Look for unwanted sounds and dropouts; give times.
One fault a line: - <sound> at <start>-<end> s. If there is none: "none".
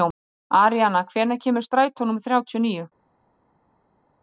none